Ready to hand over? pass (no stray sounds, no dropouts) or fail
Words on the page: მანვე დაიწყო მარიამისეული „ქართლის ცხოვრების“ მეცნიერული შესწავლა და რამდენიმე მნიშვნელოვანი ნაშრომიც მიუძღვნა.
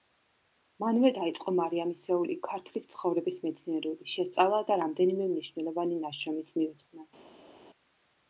pass